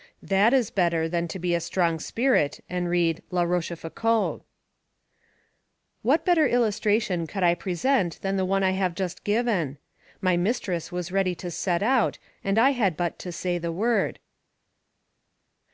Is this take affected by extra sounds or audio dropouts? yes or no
no